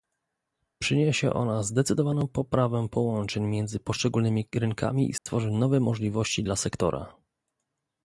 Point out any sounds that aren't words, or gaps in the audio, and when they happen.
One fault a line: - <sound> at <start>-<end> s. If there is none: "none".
- dropout at 5.2-5.3 s